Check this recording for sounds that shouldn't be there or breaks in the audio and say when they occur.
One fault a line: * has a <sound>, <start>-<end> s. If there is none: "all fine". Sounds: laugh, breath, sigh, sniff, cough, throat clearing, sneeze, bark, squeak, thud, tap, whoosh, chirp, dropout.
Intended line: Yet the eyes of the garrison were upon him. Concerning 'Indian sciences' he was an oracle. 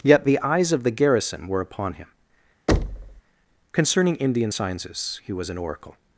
* has a thud, 2.7-3.2 s